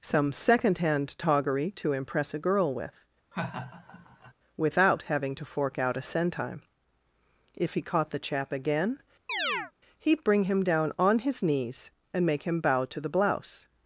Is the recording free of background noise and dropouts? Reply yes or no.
no